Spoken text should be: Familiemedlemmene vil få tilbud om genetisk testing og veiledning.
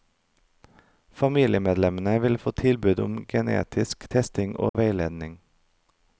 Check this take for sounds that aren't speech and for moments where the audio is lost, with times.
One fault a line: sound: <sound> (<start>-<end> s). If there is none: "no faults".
sound: dropout (4.7-4.7 s)